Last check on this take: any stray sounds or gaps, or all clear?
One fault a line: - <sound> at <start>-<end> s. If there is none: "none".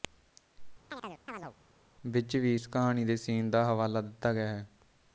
- chirp at 0.9-1.6 s